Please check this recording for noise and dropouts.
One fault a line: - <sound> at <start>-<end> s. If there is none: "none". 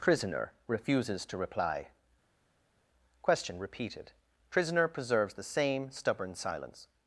none